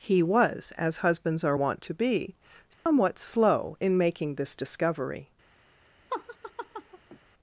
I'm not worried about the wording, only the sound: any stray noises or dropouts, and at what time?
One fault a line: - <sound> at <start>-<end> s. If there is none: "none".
- dropout at 2.7-2.9 s
- laugh at 6.1-7.2 s